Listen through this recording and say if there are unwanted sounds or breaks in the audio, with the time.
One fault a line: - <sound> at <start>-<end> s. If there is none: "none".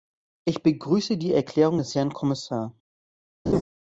- laugh at 3.5-3.6 s